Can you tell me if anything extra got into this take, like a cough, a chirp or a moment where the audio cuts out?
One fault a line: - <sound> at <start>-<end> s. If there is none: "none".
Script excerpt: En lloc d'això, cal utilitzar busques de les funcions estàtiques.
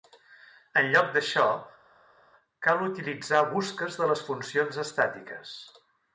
none